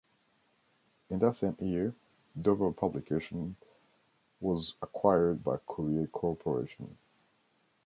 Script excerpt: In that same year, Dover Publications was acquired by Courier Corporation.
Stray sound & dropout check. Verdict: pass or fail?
pass